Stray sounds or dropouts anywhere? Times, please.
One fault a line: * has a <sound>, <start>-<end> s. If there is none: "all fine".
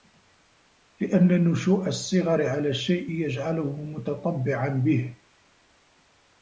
all fine